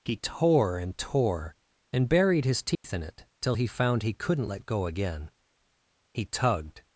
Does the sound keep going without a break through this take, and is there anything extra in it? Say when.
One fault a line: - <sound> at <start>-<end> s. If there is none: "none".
- dropout at 2.7-2.8 s